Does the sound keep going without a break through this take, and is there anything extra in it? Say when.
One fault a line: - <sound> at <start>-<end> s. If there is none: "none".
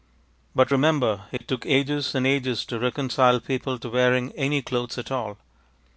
- dropout at 1.4-1.4 s